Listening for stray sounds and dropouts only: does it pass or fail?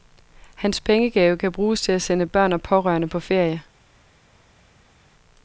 pass